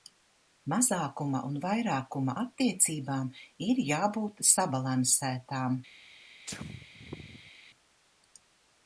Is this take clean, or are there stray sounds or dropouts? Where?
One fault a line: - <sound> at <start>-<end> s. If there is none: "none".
- sneeze at 6.5-7.5 s